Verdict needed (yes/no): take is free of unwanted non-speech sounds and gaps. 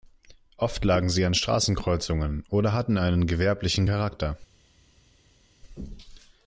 yes